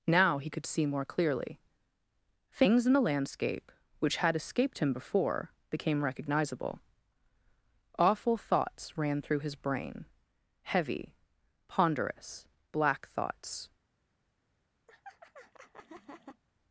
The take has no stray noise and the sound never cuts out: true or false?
false